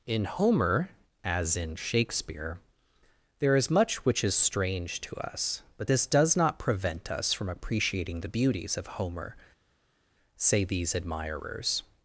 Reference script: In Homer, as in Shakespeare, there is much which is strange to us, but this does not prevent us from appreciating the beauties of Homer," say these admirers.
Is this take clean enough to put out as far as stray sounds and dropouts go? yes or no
yes